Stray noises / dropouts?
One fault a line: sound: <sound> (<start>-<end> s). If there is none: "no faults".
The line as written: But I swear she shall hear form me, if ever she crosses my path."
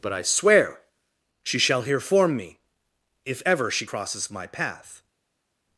no faults